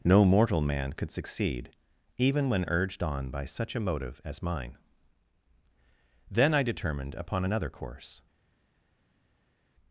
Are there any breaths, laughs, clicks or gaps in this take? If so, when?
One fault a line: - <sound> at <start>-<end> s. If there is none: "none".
none